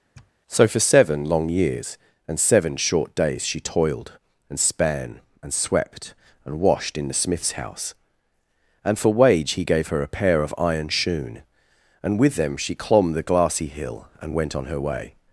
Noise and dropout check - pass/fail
fail